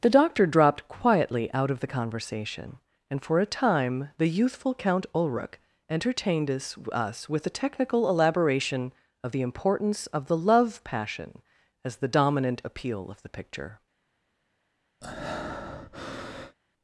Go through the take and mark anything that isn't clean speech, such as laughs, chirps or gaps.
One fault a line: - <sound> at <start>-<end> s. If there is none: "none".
- breath at 15.0-16.6 s